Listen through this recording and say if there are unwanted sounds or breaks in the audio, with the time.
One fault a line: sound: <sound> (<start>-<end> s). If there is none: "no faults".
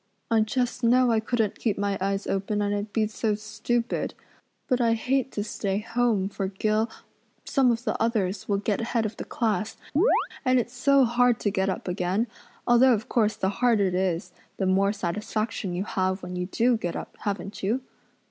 sound: chirp (10.0-10.3 s)